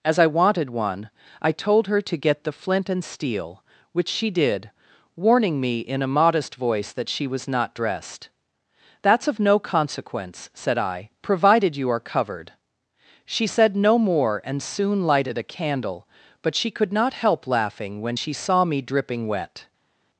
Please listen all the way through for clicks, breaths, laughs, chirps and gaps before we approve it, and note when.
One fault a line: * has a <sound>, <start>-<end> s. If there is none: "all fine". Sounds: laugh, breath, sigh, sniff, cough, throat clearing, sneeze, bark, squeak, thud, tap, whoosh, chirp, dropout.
all fine